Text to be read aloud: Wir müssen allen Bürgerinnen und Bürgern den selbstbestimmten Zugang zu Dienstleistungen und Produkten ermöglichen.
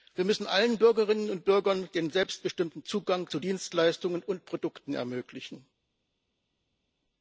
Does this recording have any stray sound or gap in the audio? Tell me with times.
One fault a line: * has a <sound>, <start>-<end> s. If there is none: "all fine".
all fine